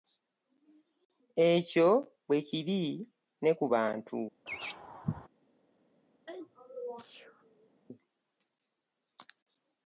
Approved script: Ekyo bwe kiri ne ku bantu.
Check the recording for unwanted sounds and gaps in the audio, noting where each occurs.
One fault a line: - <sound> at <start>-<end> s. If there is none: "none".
- laugh at 4.5-5.3 s
- sneeze at 6.3-7.7 s